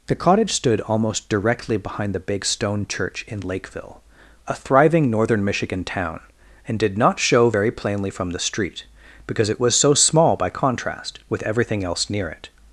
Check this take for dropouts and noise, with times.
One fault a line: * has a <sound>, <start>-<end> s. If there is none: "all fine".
all fine